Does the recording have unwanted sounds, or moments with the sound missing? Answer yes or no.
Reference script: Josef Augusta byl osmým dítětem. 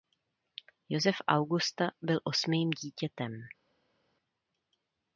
no